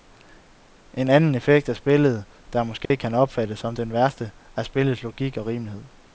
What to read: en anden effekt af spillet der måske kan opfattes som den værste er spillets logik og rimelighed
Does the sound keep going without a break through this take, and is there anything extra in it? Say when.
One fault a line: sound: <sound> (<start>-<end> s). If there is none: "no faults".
sound: dropout (2.9-2.9 s)